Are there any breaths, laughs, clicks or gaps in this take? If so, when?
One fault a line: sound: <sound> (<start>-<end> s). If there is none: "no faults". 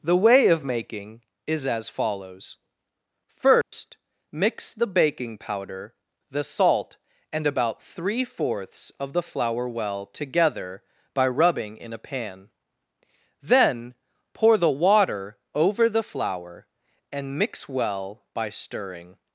sound: dropout (3.6-3.7 s)